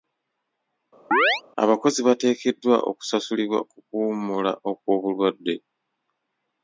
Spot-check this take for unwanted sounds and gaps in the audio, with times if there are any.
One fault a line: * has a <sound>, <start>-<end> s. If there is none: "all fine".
* has a chirp, 1.1-1.4 s